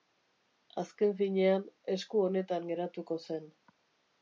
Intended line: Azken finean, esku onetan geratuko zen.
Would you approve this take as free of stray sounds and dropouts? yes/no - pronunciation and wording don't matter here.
yes